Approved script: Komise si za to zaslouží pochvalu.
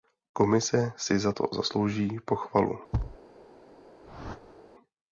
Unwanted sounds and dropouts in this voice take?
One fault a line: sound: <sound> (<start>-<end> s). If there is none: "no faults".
sound: thud (2.9-3.2 s)
sound: whoosh (4.0-4.6 s)